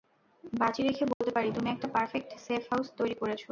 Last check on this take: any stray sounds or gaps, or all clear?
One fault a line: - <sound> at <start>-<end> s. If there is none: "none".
- dropout at 1.1-1.2 s